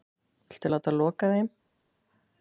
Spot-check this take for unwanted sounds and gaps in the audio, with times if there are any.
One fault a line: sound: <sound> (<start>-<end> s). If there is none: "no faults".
no faults